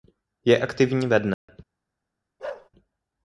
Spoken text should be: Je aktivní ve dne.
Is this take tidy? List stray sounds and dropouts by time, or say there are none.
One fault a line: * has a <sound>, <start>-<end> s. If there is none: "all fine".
* has a dropout, 1.3-1.5 s
* has a bark, 2.4-2.7 s